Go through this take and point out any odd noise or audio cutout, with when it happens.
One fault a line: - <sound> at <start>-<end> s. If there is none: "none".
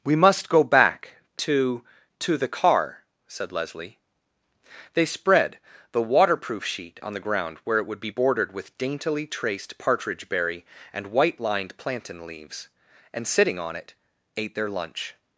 none